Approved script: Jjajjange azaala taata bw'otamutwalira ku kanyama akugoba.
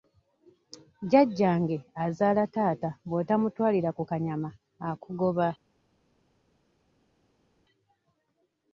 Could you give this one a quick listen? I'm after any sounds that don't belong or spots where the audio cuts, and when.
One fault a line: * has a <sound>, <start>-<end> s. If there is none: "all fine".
all fine